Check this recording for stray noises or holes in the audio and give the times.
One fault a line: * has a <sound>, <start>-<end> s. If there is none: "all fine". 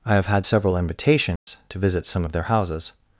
* has a dropout, 1.4-1.5 s